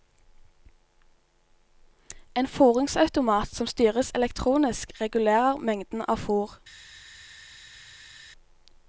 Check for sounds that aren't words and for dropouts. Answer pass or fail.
pass